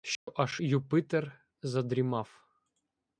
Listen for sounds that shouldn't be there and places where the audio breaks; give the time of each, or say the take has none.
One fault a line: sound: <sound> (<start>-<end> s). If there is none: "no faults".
sound: dropout (0.2-0.3 s)